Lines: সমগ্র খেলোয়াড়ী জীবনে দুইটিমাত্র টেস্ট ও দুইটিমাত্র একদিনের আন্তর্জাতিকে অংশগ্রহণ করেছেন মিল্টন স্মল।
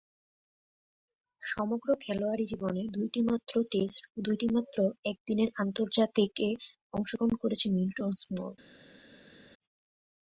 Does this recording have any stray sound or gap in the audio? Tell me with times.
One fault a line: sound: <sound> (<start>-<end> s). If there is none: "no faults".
no faults